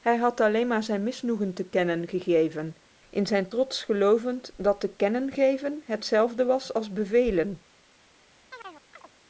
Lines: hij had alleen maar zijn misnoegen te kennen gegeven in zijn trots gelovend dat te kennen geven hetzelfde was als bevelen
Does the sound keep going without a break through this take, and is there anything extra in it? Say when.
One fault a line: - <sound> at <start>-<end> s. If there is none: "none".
- chirp at 8.5-9.1 s